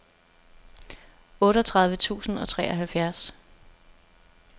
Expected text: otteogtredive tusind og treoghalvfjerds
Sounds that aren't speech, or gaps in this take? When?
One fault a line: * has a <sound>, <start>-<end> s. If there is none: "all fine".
all fine